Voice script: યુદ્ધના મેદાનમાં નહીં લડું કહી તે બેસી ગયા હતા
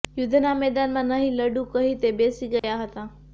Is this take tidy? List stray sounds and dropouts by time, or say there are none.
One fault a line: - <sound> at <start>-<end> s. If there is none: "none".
- dropout at 2.6-2.6 s